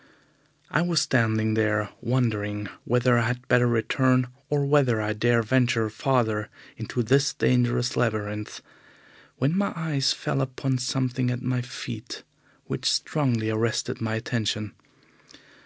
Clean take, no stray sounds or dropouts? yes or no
yes